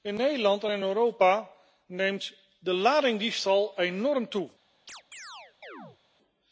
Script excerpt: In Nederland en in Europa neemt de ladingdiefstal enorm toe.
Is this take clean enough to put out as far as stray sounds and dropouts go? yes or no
no